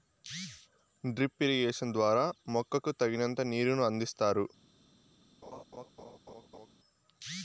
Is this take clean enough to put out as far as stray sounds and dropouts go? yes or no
no